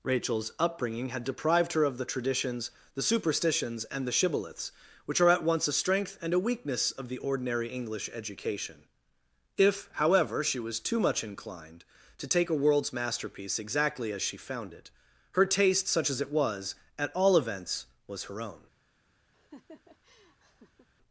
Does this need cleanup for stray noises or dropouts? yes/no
yes